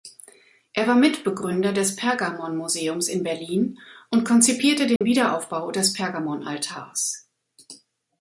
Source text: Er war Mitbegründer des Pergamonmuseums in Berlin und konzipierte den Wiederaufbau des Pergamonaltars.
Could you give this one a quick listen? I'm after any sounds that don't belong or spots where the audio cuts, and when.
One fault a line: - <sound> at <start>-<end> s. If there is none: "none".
- dropout at 5.0-5.0 s